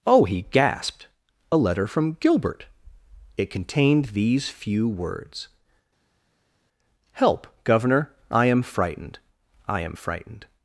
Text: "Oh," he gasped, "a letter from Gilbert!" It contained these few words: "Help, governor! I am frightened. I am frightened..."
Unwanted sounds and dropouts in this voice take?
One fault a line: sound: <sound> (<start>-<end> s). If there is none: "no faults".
no faults